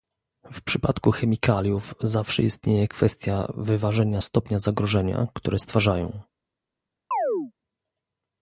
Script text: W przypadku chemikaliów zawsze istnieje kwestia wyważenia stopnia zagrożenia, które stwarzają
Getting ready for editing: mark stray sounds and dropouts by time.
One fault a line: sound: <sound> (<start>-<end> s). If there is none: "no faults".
sound: chirp (7.1-7.5 s)